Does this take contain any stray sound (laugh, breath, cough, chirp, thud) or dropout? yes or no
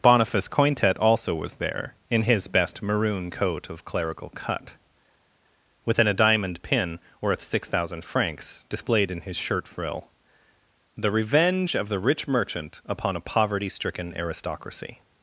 no